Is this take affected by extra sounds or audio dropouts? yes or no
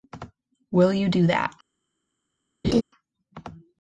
yes